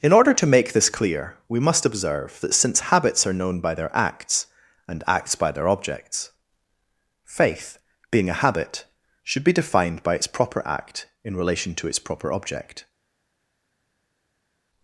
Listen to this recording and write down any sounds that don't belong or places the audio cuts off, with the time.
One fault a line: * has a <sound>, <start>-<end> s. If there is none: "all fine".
all fine